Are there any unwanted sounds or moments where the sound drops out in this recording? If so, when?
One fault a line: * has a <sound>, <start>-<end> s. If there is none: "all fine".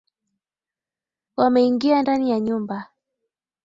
all fine